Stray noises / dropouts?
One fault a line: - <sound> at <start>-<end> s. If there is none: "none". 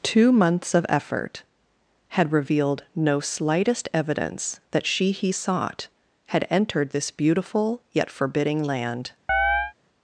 - chirp at 9.3-9.7 s